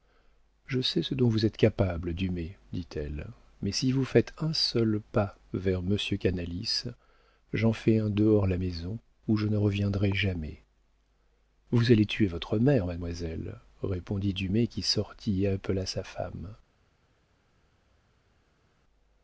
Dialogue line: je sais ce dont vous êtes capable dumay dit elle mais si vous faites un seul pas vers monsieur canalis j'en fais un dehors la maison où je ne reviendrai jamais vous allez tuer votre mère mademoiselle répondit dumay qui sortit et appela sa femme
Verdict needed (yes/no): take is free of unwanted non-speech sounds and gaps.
yes